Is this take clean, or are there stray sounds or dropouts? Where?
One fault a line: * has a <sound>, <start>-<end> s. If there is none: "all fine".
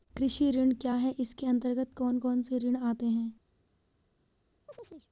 * has a chirp, 4.7-5.1 s